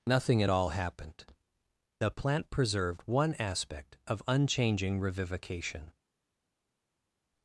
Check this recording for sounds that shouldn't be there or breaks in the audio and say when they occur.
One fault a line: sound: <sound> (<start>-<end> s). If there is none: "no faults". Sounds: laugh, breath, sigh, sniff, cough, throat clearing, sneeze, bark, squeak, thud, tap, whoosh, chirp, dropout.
no faults